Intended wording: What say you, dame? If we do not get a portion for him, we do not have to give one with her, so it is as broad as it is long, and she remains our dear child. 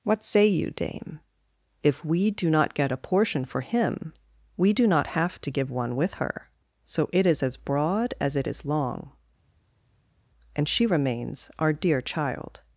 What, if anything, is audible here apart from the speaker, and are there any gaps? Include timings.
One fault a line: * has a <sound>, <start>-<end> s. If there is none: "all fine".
all fine